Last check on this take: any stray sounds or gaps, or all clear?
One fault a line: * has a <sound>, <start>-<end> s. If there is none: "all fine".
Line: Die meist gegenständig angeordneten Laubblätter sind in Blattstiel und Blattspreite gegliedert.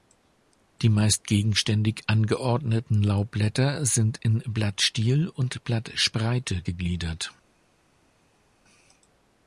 all fine